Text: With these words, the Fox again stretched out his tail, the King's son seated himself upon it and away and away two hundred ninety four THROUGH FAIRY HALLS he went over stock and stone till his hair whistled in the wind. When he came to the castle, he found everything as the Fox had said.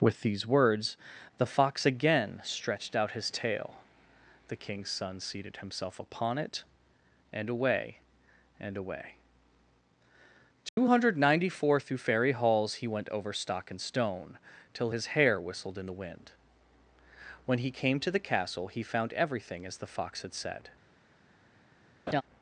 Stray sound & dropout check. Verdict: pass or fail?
fail